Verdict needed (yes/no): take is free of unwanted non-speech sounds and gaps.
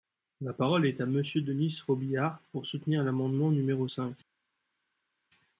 yes